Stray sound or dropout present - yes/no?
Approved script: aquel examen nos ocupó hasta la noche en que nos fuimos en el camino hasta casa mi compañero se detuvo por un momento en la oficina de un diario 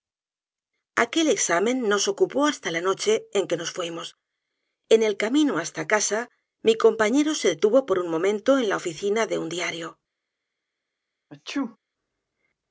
yes